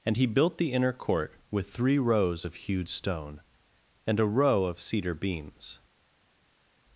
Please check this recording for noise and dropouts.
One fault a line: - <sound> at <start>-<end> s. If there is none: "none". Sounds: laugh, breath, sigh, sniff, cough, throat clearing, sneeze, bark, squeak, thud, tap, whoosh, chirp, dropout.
none